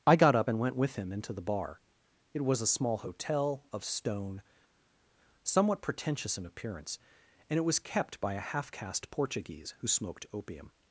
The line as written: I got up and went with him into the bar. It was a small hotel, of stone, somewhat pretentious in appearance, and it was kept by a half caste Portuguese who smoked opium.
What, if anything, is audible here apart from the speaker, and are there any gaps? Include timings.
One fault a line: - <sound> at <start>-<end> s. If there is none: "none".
none